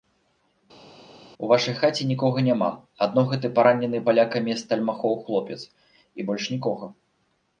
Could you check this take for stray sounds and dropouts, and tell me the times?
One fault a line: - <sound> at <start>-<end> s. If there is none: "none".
none